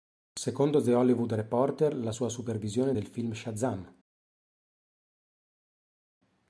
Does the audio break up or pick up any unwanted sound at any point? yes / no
no